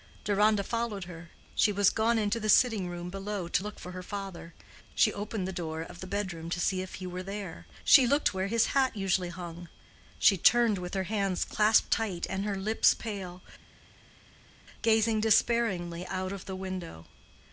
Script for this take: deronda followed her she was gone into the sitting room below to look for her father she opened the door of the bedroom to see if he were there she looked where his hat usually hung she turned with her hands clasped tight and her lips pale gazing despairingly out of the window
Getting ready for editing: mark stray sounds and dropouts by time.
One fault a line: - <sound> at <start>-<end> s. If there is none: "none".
none